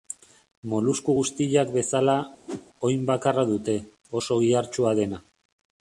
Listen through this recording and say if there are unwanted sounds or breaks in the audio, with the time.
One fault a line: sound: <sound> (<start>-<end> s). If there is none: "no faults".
sound: whoosh (2.5-2.7 s)